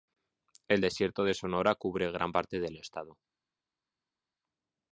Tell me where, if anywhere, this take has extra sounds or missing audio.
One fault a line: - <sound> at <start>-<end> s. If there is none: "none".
none